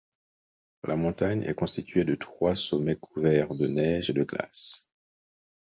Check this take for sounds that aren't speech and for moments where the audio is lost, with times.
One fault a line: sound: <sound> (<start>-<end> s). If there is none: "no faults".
no faults